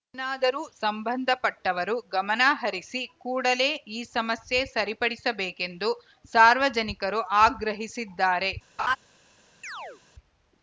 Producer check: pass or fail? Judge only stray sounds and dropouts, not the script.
fail